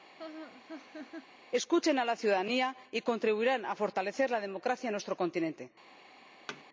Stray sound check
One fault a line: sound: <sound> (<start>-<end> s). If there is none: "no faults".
sound: laugh (0.2-1.3 s)
sound: thud (6.5-6.6 s)